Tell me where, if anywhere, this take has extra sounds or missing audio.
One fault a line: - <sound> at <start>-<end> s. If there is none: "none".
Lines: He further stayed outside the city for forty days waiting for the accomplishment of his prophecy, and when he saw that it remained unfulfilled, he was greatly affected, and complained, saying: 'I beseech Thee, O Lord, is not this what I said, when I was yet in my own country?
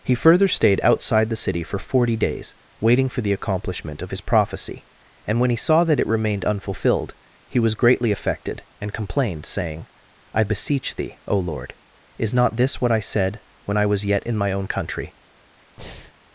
- breath at 15.8-16.1 s